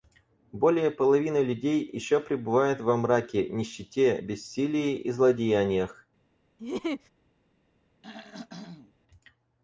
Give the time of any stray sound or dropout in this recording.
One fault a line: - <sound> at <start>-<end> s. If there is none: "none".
- laugh at 6.6-7.1 s
- throat clearing at 8.0-8.9 s